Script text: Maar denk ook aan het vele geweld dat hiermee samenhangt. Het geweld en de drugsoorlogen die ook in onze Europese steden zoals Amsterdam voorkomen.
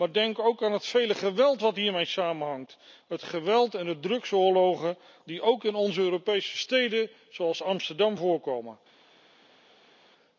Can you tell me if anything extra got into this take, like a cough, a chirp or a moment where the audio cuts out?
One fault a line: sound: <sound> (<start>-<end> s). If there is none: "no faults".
no faults